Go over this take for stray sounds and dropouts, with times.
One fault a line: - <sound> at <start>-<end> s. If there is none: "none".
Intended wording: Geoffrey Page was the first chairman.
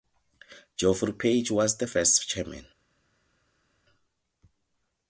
none